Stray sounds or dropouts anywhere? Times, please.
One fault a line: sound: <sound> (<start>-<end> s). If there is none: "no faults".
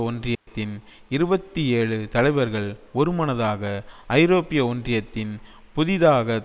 sound: dropout (0.3-0.5 s)